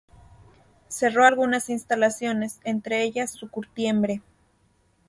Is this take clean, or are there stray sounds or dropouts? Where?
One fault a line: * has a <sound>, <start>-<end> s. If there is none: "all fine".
all fine